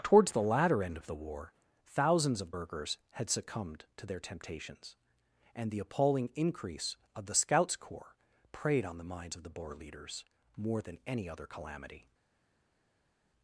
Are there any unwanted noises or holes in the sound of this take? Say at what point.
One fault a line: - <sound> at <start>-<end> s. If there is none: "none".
none